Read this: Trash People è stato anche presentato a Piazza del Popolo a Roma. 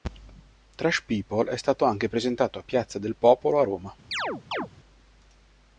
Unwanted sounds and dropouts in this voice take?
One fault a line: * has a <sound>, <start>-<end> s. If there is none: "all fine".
* has a chirp, 4.1-4.7 s